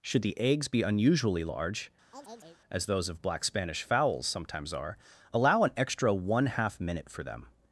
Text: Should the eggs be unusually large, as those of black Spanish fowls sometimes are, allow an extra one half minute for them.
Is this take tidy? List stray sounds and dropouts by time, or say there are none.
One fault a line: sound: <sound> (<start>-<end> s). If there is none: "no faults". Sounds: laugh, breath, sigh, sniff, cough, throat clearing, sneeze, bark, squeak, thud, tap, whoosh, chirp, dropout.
sound: chirp (2.1-2.6 s)